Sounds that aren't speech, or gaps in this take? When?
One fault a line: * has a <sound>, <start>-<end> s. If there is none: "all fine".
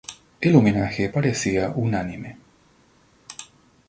all fine